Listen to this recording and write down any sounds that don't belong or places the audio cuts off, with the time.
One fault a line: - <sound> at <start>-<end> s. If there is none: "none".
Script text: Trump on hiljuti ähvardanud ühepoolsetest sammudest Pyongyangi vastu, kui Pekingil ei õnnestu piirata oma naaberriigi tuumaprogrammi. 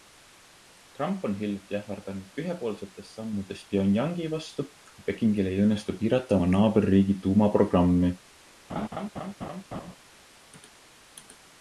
- laugh at 8.7-10.0 s